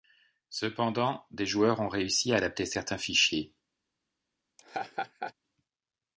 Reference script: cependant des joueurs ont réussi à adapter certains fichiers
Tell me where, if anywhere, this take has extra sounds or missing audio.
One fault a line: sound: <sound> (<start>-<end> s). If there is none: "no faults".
sound: laugh (4.6-5.3 s)